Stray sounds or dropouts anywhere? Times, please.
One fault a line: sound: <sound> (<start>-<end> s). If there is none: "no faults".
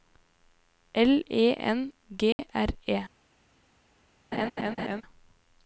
sound: dropout (2.3-2.4 s)
sound: laugh (4.3-5.0 s)